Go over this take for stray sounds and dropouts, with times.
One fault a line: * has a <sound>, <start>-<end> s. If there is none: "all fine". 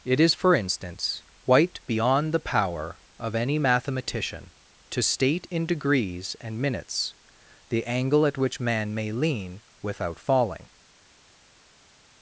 all fine